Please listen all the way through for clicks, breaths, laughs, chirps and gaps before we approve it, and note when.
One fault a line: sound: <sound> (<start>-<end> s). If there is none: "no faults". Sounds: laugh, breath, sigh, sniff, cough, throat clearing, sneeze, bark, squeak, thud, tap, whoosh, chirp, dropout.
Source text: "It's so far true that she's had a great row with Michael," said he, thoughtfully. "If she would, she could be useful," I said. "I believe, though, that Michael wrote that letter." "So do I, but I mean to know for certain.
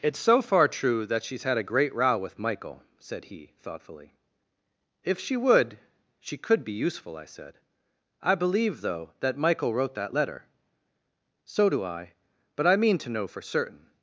no faults